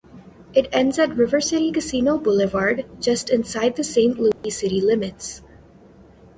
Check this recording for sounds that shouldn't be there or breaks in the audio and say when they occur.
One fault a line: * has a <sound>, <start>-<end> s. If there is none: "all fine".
* has a dropout, 4.3-4.4 s